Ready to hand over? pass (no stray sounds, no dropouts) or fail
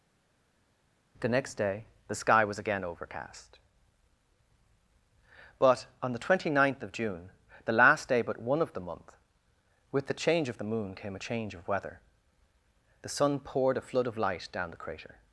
pass